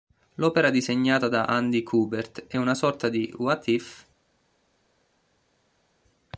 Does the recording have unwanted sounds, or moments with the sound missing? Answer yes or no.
no